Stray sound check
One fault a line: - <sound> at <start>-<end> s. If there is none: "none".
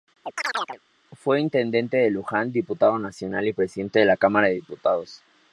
- chirp at 0.2-0.8 s